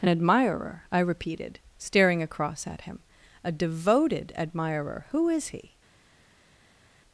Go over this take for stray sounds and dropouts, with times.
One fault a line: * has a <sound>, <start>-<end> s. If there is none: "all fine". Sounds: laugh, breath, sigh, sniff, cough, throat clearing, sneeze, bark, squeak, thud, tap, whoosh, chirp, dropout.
all fine